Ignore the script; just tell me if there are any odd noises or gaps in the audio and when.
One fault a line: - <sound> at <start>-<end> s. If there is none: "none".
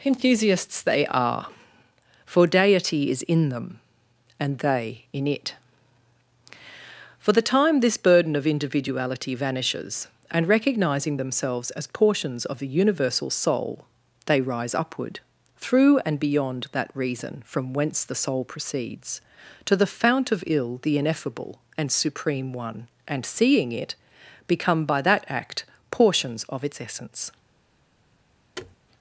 - thud at 28.6-28.8 s